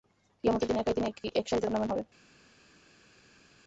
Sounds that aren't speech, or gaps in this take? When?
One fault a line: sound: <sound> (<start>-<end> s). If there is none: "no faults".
no faults